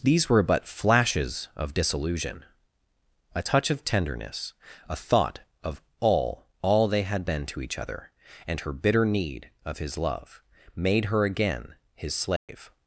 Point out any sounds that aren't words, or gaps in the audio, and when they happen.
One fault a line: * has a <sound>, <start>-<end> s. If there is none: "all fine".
* has a dropout, 12.4-12.5 s